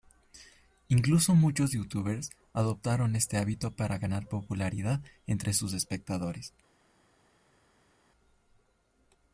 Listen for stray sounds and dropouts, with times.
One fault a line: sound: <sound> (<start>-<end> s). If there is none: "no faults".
no faults